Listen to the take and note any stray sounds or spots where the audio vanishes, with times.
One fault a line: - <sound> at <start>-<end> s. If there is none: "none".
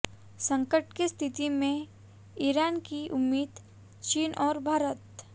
none